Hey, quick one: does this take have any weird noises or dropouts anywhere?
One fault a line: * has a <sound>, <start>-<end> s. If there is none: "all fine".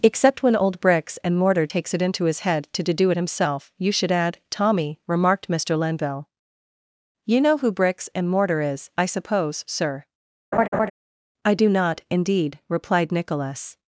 * has a laugh, 10.5-10.9 s